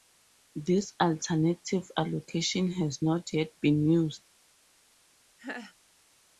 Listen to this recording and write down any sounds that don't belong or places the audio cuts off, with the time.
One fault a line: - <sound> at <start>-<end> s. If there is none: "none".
- laugh at 5.4-5.7 s